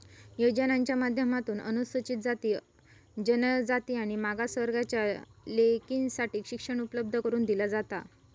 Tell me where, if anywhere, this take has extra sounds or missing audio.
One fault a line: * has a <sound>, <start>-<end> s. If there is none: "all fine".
all fine